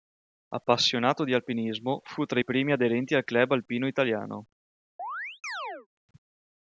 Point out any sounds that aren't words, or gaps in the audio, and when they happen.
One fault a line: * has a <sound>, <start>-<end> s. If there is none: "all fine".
* has a chirp, 5.0-5.9 s